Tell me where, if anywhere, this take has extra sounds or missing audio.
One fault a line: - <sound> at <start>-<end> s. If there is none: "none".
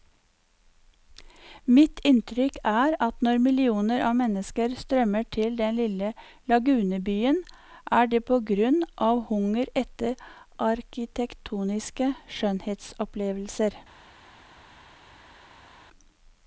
none